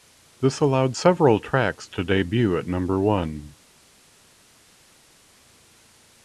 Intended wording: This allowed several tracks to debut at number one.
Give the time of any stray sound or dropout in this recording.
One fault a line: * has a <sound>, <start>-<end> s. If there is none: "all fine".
all fine